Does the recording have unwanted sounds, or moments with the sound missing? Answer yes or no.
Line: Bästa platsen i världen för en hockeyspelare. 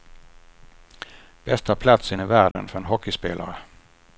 yes